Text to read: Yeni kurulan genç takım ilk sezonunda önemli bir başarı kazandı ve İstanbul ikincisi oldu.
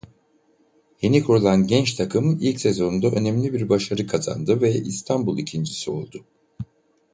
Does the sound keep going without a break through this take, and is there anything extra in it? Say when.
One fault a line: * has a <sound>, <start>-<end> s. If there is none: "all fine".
all fine